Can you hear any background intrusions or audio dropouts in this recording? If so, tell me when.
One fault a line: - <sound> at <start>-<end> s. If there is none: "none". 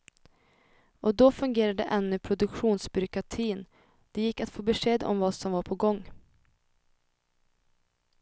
none